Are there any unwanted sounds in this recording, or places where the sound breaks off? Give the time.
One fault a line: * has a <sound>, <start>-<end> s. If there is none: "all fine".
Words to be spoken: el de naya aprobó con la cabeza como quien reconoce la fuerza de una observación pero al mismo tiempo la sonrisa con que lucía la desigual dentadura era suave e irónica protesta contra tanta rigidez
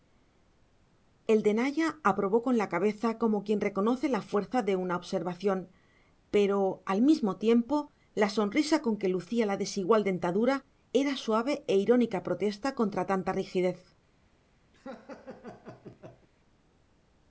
* has a laugh, 14.7-16.3 s